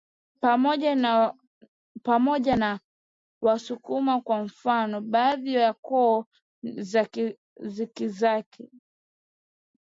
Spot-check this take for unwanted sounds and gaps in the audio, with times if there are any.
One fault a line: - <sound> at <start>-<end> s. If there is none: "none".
none